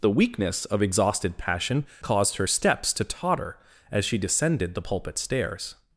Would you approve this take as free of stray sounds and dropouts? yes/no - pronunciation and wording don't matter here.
yes